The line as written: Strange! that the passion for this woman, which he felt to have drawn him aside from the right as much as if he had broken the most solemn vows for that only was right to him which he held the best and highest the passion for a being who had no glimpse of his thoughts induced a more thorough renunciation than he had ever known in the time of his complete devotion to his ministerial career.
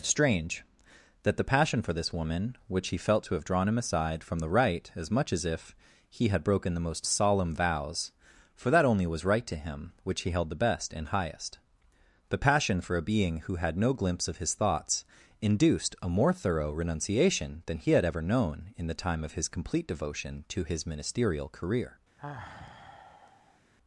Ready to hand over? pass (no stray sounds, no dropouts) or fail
fail